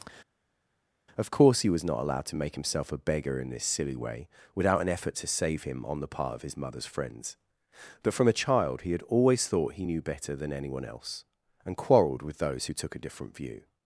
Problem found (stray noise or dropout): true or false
false